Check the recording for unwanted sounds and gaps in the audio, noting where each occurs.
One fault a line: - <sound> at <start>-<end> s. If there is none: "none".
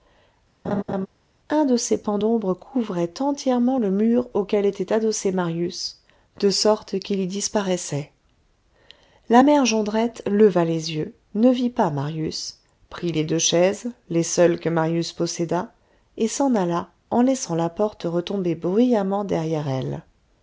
- laugh at 0.6-1.1 s